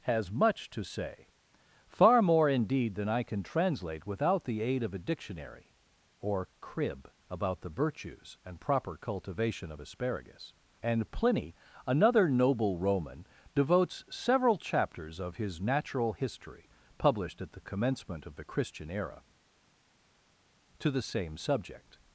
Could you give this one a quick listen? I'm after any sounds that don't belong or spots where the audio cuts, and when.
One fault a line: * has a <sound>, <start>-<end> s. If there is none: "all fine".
all fine